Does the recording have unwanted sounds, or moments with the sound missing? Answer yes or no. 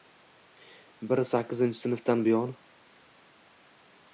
no